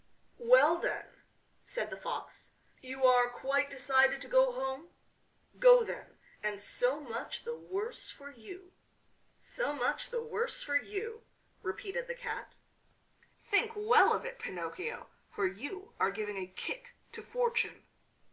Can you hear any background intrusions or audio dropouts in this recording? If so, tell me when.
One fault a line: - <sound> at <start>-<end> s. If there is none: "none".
none